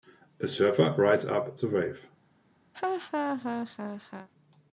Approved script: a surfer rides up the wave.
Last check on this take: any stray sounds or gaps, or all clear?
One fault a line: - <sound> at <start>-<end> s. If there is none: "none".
- laugh at 2.7-4.3 s